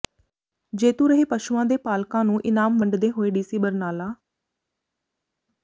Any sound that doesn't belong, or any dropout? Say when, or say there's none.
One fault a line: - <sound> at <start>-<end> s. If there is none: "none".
none